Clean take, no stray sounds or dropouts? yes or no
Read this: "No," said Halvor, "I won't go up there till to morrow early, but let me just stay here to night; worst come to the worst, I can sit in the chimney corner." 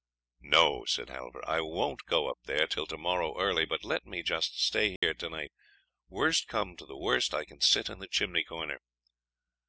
no